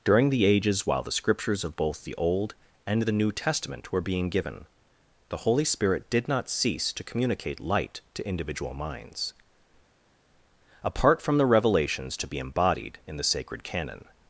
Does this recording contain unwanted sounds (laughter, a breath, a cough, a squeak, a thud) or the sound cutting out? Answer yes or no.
no